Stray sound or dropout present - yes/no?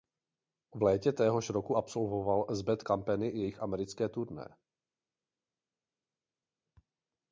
no